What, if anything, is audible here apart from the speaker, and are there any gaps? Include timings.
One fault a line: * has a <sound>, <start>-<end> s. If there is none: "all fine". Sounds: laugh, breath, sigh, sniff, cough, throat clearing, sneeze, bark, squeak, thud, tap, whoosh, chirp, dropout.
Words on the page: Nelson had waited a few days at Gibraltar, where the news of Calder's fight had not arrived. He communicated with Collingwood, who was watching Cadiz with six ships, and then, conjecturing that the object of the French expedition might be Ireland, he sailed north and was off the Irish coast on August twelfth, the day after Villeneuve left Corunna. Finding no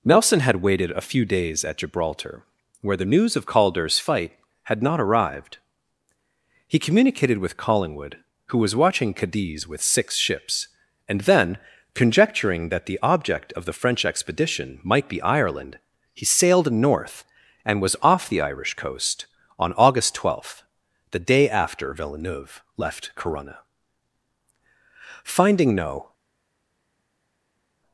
all fine